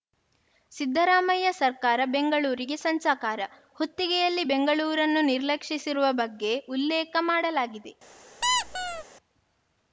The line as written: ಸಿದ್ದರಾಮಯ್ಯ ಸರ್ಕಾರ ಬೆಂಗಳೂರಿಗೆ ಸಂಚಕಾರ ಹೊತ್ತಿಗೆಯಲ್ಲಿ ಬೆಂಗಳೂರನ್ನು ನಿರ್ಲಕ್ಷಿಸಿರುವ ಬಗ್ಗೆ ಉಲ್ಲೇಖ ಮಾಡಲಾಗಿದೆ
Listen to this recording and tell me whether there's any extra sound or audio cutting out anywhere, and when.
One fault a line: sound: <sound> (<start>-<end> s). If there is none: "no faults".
sound: squeak (8.4-9.0 s)